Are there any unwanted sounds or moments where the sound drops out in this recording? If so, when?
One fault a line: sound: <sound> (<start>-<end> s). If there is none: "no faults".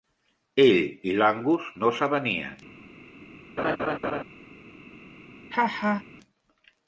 sound: laugh (3.6-4.2 s)
sound: laugh (5.5-6.0 s)